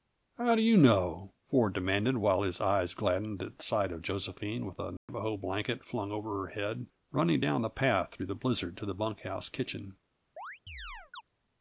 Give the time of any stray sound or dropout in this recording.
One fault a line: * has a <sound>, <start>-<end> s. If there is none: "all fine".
* has a dropout, 5.0-5.1 s
* has a chirp, 10.4-11.2 s